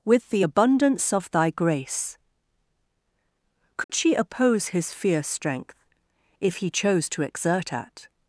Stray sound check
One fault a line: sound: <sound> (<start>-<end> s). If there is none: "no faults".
sound: dropout (3.8-3.9 s)